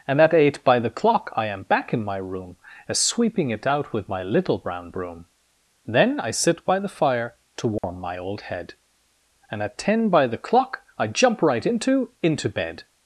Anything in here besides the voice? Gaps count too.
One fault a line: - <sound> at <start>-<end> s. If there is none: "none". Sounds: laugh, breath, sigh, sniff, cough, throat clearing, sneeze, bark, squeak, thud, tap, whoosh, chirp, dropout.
- dropout at 7.8-7.8 s